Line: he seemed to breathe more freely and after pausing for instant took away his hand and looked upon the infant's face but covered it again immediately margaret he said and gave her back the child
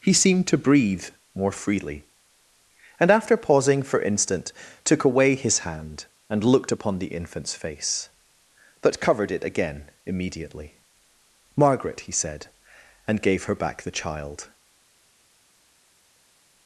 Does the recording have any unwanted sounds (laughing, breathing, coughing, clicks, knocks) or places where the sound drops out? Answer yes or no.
no